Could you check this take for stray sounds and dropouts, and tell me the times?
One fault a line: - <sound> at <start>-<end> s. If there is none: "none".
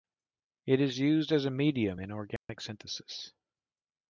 - dropout at 2.4-2.5 s